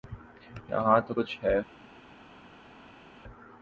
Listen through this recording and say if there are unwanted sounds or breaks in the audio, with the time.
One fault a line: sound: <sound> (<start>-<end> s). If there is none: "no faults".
no faults